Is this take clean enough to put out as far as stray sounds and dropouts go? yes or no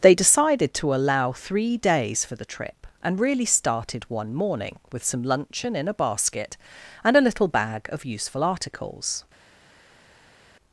yes